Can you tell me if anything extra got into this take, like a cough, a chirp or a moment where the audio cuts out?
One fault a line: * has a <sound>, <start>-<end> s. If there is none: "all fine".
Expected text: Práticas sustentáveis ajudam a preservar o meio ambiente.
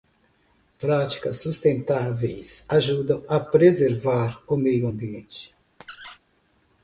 * has a squeak, 5.8-6.2 s